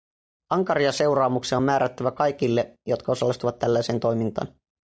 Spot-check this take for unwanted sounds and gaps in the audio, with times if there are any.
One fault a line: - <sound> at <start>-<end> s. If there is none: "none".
none